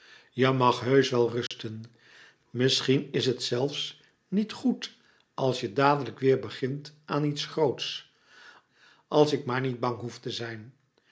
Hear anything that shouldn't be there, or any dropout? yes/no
yes